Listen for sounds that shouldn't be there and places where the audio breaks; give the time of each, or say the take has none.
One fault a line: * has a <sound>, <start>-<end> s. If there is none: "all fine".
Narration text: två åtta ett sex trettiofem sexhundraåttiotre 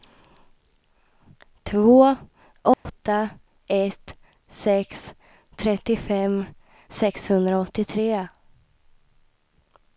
* has a dropout, 2.7-2.9 s